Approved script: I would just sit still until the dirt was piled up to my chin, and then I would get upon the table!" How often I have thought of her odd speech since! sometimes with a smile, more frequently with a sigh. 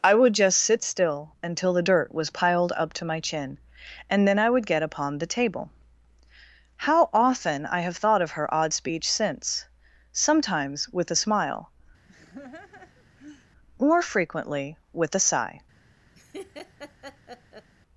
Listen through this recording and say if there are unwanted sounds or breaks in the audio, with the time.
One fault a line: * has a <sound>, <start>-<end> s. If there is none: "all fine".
* has a laugh, 12.1-13.5 s
* has a laugh, 16.1-17.7 s